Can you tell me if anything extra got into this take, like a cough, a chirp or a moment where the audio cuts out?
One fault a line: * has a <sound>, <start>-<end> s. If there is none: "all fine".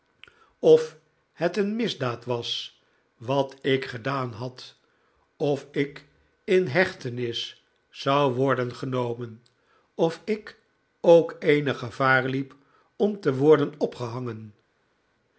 all fine